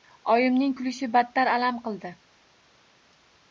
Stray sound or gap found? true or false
false